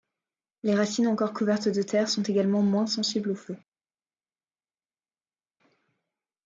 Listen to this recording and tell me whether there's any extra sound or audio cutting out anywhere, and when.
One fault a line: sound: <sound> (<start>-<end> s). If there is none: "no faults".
no faults